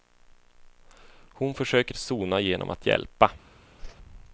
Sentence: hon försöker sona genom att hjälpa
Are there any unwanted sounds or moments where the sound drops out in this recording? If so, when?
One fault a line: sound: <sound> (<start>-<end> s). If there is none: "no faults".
sound: whoosh (3.8-4.0 s)